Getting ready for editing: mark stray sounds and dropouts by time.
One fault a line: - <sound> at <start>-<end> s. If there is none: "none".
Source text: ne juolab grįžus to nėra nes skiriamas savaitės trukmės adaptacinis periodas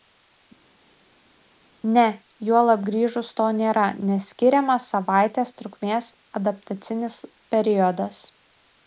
none